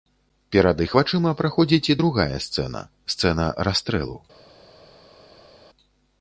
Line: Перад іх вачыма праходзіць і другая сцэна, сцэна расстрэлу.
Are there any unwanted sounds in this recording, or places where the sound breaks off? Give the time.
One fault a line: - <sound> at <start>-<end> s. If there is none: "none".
none